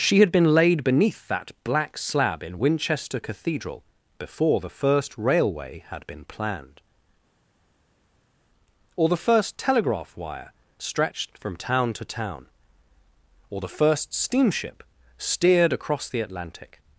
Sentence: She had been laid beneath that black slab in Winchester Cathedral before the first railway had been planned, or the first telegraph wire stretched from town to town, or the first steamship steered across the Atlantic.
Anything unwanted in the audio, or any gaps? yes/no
no